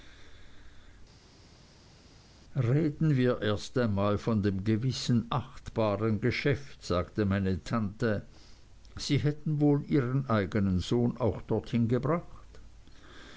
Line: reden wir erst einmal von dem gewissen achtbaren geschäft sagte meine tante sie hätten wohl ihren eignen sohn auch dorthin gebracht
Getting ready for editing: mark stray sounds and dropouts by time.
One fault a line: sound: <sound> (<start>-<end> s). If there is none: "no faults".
no faults